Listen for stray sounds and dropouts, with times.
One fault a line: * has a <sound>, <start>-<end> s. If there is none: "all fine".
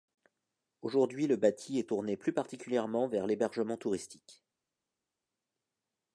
all fine